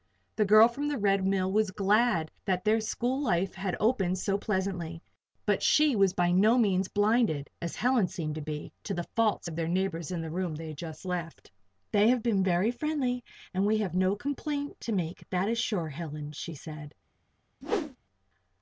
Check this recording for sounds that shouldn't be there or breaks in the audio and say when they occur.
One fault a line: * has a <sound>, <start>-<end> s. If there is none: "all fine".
* has a whoosh, 17.6-18.0 s